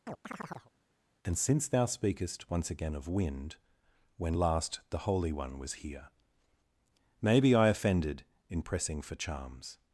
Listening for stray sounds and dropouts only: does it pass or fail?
fail